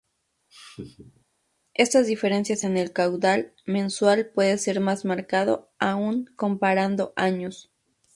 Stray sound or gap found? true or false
true